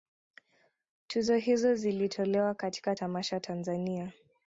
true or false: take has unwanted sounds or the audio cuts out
false